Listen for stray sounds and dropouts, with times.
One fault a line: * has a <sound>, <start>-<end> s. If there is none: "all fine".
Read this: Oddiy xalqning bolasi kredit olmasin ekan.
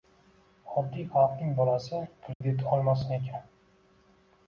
* has a dropout, 2.3-2.4 s